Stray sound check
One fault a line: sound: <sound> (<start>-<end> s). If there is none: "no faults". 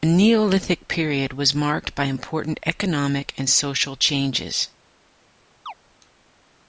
sound: chirp (5.7-5.7 s)